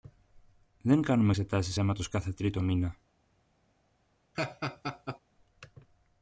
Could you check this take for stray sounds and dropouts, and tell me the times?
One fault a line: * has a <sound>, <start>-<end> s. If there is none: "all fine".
* has a laugh, 4.3-5.2 s